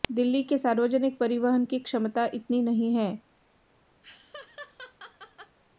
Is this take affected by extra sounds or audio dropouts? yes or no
yes